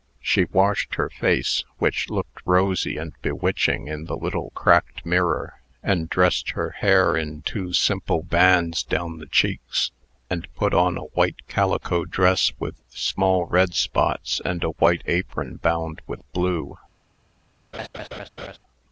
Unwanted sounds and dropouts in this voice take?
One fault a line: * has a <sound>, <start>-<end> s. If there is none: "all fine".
* has a laugh, 17.7-18.6 s